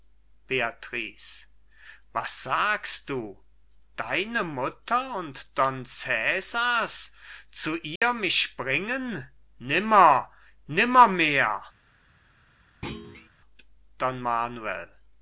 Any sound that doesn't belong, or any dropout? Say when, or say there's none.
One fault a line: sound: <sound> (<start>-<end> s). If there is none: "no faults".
sound: dropout (8.0-8.0 s)
sound: thud (12.8-13.3 s)